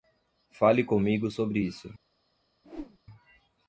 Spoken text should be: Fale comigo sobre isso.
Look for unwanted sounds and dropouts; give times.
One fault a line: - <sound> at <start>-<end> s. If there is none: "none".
- whoosh at 2.6-3.0 s